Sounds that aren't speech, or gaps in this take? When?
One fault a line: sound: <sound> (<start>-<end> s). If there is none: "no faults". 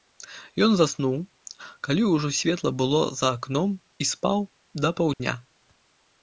sound: dropout (5.1-5.2 s)